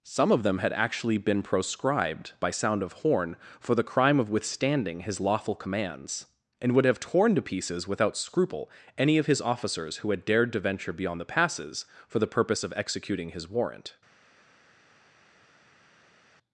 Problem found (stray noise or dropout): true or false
false